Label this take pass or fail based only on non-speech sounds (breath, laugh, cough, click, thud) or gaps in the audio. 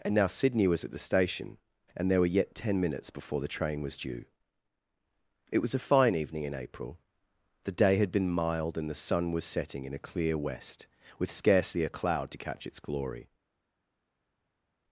pass